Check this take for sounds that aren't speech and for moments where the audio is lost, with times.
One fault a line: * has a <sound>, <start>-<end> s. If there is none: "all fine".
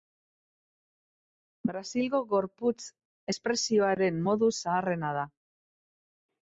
all fine